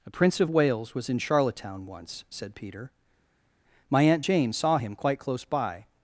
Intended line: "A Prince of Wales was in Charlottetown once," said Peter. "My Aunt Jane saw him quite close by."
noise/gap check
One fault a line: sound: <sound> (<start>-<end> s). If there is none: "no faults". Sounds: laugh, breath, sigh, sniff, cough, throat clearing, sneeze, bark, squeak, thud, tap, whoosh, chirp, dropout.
no faults